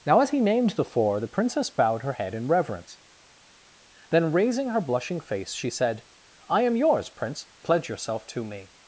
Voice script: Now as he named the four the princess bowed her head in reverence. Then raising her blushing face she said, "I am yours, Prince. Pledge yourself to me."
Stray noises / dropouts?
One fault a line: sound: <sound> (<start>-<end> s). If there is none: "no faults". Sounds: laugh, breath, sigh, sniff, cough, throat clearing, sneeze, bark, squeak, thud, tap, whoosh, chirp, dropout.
no faults